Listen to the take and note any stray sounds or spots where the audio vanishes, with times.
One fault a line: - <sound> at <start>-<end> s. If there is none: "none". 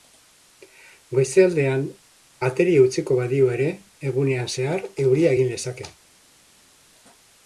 none